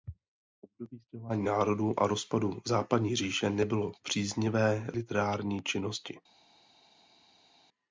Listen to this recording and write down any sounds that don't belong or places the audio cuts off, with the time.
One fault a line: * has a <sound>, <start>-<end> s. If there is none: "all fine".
all fine